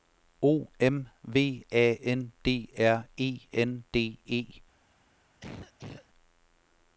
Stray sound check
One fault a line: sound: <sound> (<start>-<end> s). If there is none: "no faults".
sound: cough (5.4-6.1 s)